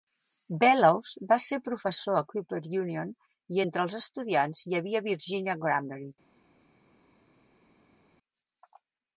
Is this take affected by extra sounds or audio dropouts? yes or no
no